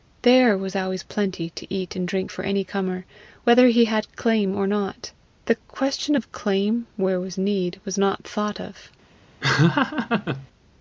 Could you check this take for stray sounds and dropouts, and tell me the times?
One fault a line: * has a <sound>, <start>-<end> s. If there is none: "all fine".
* has a laugh, 9.4-10.5 s